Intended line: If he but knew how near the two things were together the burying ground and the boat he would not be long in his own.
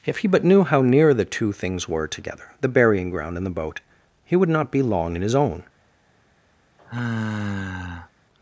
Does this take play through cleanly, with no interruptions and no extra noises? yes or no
no